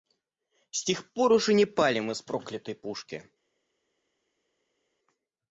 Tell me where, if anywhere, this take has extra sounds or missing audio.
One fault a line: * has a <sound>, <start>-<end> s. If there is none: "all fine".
all fine